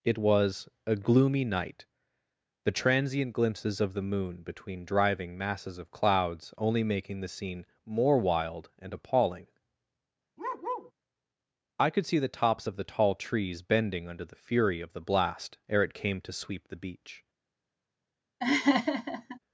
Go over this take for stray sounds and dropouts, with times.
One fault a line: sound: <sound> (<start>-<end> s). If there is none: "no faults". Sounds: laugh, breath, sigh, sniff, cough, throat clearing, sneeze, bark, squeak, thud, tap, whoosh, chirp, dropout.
sound: bark (10.4-10.9 s)
sound: laugh (18.4-19.4 s)